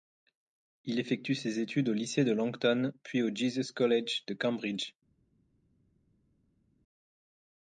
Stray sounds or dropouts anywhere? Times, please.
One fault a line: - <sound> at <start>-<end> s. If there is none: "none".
none